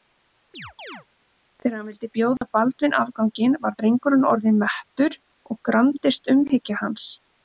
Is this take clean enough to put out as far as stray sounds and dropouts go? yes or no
no